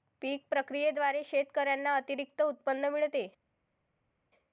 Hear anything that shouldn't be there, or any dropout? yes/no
no